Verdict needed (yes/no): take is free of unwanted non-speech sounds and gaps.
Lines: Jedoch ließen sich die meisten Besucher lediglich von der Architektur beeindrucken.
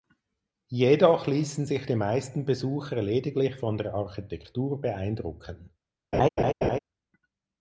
no